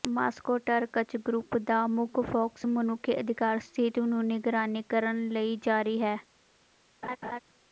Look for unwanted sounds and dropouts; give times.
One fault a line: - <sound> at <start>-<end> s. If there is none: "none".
- laugh at 7.0-7.4 s